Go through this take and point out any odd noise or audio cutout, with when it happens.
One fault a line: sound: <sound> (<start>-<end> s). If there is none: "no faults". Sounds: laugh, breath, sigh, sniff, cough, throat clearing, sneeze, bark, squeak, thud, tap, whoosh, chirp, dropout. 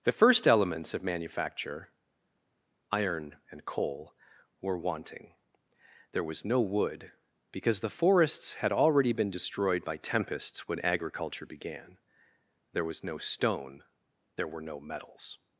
no faults